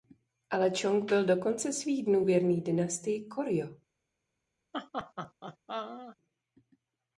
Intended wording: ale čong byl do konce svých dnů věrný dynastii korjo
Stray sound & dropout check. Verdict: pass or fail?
fail